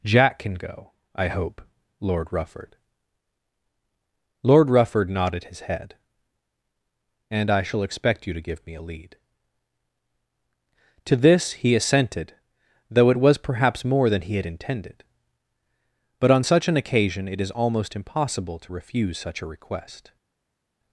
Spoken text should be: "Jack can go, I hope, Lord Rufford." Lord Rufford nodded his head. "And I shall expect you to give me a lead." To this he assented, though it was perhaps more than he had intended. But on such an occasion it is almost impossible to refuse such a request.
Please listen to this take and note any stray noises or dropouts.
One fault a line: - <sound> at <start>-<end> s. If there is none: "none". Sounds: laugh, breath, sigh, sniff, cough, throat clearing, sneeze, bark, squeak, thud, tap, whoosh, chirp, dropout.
none